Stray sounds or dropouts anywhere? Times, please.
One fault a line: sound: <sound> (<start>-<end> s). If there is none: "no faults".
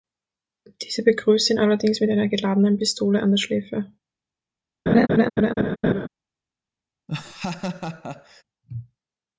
sound: laugh (4.9-6.1 s)
sound: laugh (7.1-8.4 s)